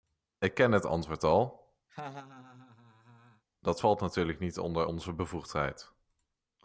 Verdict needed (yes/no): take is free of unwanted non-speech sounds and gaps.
no